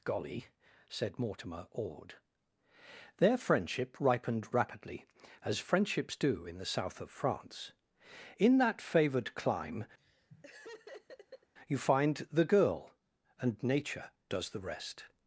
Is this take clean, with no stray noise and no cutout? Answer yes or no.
no